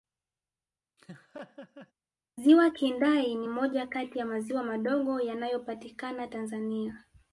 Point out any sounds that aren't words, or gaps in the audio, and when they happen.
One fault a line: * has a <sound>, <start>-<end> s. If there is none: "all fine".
* has a laugh, 1.0-1.9 s